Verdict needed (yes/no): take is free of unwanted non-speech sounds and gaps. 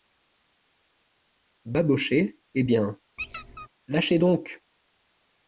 no